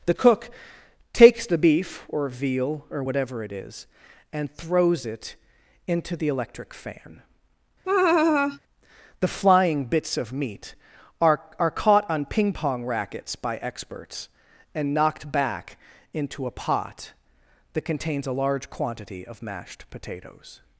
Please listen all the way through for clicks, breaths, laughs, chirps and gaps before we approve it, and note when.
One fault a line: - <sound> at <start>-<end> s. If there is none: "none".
- laugh at 7.8-8.6 s